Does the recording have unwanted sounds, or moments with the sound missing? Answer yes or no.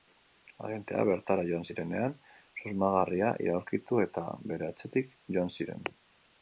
no